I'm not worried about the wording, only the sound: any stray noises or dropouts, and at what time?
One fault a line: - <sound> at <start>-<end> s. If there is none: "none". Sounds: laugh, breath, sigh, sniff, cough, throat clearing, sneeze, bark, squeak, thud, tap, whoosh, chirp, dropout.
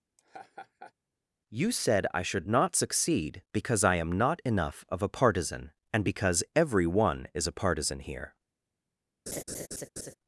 - laugh at 0.2-0.9 s
- laugh at 9.3-10.1 s